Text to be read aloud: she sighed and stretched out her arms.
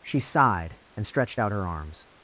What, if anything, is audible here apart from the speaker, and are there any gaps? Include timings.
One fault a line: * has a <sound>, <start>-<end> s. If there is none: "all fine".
all fine